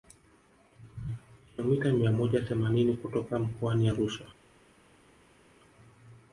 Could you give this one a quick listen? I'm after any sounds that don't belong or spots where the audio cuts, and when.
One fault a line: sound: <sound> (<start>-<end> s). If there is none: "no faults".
no faults